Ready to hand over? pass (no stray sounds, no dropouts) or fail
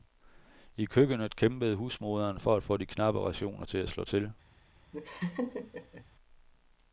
fail